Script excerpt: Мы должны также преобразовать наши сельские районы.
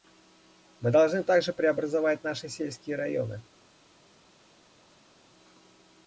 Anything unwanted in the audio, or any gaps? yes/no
no